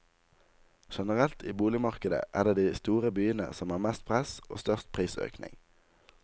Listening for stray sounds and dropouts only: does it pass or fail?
pass